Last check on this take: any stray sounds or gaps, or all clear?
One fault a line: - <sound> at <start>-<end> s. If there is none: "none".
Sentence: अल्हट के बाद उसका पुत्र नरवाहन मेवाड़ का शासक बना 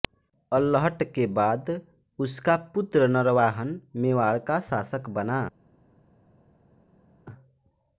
none